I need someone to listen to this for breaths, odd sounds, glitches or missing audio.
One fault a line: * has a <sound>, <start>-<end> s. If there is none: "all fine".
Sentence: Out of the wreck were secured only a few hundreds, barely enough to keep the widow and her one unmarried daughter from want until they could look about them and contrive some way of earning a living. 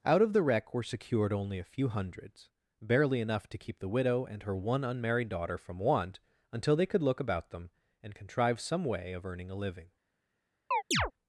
* has a chirp, 10.7-11.1 s